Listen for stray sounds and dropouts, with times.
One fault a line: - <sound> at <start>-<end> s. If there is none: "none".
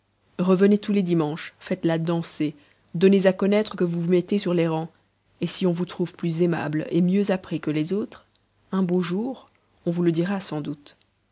none